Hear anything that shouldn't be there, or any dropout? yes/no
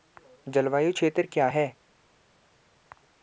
no